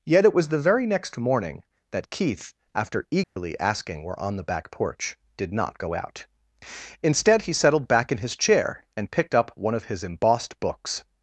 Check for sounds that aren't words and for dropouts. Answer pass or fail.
fail